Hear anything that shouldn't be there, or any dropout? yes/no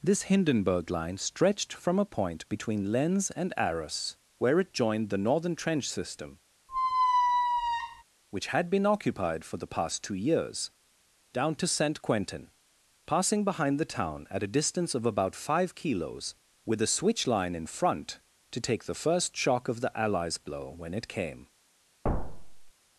yes